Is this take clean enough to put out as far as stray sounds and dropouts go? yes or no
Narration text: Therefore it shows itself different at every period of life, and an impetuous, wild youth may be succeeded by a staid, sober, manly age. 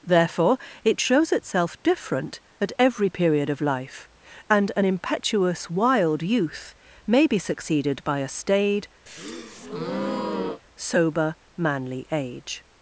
no